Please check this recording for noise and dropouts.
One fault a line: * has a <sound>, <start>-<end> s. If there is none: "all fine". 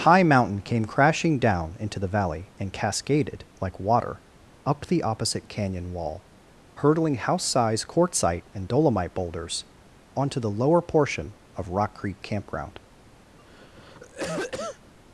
* has a cough, 13.4-14.9 s